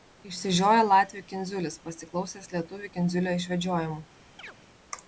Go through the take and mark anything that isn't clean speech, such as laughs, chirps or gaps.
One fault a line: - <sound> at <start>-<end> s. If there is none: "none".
- chirp at 4.4-4.6 s